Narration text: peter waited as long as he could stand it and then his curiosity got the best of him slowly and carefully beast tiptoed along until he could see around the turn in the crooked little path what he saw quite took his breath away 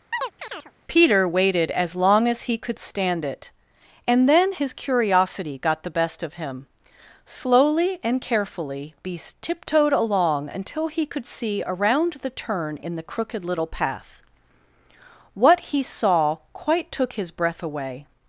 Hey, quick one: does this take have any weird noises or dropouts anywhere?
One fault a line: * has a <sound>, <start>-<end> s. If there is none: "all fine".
* has a chirp, 0.1-0.7 s